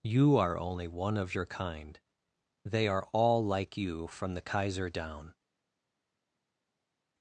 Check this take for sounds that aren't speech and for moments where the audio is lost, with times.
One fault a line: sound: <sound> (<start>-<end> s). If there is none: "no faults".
no faults